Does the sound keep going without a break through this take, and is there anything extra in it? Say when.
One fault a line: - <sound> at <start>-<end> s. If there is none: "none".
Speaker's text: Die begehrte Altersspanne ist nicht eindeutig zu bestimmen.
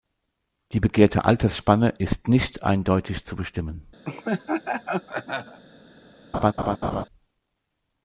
- laugh at 4.0-5.6 s
- laugh at 6.3-7.0 s